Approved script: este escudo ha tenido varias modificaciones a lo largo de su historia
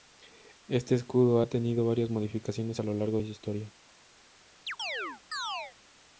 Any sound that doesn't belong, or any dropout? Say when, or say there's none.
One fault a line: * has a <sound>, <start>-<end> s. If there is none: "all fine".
* has a chirp, 4.7-5.7 s